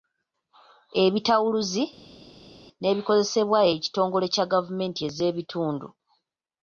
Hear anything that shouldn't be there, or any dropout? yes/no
no